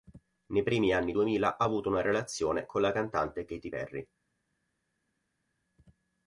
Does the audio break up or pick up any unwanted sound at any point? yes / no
no